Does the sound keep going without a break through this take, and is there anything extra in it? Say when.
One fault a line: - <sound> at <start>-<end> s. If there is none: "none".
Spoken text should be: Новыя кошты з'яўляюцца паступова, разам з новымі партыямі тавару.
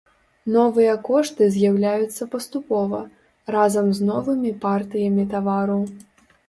none